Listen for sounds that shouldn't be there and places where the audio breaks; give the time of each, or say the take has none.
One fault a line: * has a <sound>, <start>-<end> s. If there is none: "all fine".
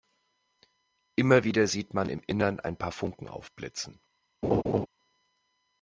* has a laugh, 4.4-4.9 s